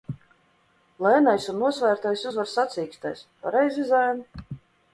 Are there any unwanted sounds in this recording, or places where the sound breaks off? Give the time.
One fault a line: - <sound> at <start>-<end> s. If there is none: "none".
none